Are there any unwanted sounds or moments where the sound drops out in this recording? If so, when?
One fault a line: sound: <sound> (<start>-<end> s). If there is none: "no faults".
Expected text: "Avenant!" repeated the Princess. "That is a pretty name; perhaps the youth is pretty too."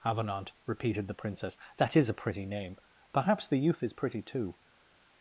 no faults